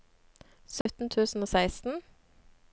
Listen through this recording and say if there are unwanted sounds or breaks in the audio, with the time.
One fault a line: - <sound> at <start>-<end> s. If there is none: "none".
- dropout at 0.8-0.9 s